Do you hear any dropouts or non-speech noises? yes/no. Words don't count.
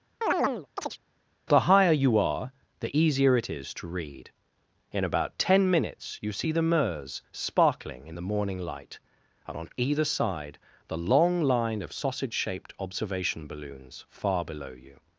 yes